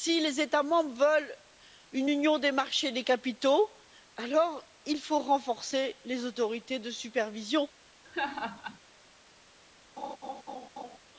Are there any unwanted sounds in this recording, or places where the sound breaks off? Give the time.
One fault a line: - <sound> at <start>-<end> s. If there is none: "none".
- laugh at 8.0-8.8 s
- laugh at 10.0-11.0 s